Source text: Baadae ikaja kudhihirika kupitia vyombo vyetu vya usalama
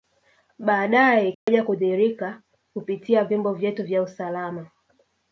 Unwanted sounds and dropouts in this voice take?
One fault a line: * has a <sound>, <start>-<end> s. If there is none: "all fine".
* has a dropout, 1.3-1.5 s